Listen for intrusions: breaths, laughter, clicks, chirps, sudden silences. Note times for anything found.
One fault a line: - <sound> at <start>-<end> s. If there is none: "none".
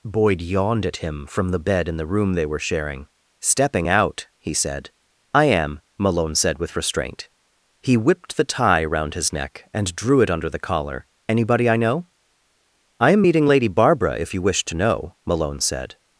none